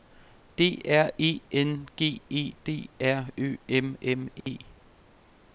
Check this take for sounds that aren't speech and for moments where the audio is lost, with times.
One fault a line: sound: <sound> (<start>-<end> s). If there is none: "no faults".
sound: dropout (4.4-4.5 s)